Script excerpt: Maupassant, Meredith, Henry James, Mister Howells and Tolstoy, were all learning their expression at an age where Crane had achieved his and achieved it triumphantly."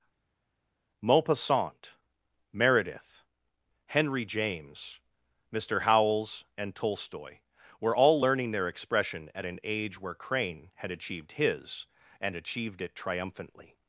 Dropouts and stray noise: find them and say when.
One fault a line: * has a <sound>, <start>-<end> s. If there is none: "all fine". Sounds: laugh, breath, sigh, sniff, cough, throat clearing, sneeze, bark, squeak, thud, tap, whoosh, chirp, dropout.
all fine